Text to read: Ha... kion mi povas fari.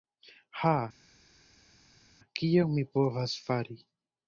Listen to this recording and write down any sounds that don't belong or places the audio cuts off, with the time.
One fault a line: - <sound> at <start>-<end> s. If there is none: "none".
none